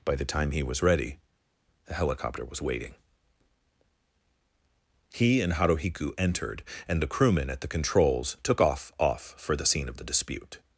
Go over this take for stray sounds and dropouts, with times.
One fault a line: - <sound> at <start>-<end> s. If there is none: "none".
none